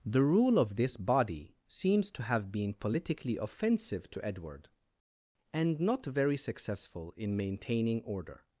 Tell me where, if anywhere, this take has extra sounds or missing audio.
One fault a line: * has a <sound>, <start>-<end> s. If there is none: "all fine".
all fine